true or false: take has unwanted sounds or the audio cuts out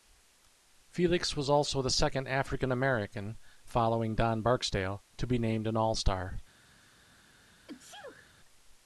true